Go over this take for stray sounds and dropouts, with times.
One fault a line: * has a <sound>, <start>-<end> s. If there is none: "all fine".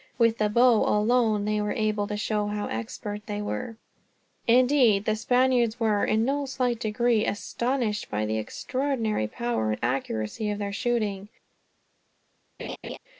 * has a laugh, 12.6-13.0 s